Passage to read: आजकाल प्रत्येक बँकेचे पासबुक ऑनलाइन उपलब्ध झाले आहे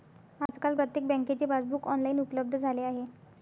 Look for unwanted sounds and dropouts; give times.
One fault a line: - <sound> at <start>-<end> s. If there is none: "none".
- dropout at 0.5-0.5 s